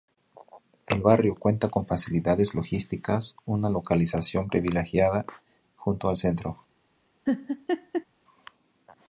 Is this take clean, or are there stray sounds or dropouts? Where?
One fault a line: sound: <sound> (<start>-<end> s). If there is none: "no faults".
sound: laugh (7.3-8.1 s)